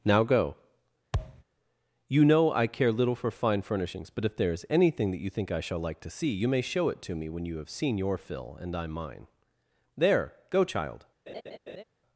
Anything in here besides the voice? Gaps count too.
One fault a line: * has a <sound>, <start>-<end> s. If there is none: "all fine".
* has a thud, 1.1-1.4 s
* has a laugh, 11.3-11.8 s